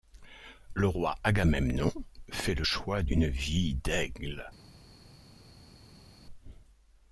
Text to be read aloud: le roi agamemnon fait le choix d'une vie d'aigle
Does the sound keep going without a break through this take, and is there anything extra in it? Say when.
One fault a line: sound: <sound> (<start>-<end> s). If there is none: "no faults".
no faults